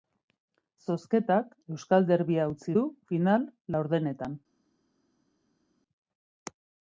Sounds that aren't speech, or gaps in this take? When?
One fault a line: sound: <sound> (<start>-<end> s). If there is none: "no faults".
no faults